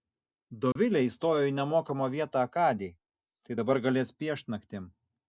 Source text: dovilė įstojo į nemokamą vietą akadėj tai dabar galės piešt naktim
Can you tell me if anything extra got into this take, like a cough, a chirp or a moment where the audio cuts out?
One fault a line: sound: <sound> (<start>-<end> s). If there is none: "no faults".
sound: dropout (0.7-0.8 s)